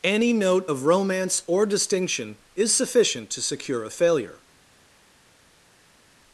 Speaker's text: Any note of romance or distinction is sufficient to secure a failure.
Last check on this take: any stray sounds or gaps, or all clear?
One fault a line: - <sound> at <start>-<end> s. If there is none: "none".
none